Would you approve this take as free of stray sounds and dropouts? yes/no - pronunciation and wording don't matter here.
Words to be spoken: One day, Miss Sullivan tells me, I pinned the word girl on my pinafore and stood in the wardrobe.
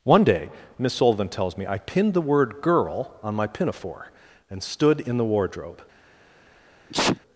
no